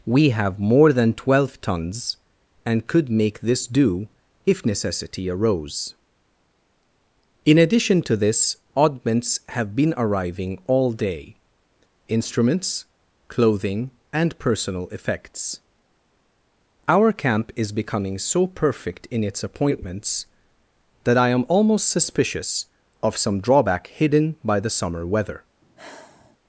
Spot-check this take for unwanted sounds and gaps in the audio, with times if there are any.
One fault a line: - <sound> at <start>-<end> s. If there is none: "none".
- sigh at 25.6-26.4 s